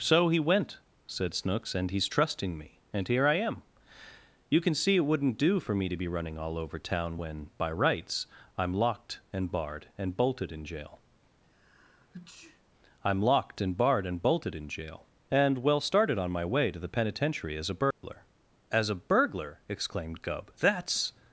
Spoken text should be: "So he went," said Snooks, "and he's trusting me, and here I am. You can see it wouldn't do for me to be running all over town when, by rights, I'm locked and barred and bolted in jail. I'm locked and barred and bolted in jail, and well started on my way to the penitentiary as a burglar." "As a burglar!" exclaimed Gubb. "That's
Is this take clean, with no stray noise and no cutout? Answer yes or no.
no